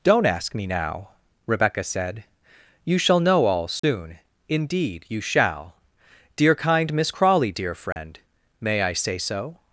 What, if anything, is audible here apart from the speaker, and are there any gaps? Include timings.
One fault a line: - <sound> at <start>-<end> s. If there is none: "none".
- dropout at 3.8-3.8 s
- dropout at 7.9-8.0 s